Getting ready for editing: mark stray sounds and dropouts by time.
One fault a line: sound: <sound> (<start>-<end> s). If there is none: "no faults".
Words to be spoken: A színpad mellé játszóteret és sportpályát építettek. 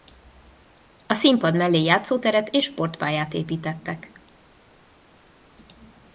no faults